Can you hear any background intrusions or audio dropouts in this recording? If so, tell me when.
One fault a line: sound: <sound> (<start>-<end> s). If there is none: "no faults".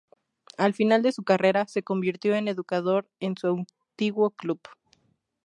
no faults